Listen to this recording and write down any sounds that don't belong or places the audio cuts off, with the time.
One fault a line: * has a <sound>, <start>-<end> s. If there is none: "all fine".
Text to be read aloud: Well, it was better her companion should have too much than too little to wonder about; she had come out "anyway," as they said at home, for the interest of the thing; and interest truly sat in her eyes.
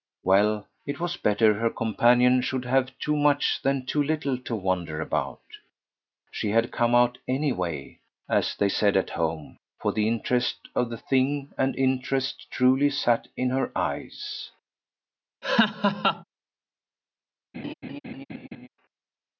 * has a laugh, 15.4-16.2 s
* has a laugh, 17.5-18.7 s